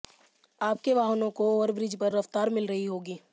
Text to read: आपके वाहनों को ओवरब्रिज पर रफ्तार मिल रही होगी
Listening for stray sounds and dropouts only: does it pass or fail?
pass